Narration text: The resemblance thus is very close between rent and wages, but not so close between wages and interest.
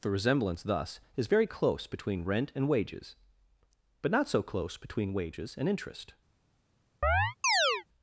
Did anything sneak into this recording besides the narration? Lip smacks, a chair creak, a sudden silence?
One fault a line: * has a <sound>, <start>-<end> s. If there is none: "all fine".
* has a chirp, 7.0-7.8 s